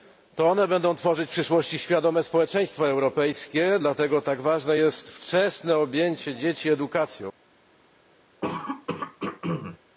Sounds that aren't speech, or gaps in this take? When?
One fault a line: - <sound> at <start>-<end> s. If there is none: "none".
- throat clearing at 8.4-9.8 s